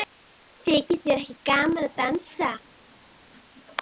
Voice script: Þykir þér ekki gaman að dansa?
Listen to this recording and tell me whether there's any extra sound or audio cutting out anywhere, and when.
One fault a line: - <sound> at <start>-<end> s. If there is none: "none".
none